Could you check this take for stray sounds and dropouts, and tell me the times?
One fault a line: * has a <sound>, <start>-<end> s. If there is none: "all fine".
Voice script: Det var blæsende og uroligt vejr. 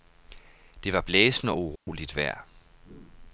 * has a dropout, 1.8-1.9 s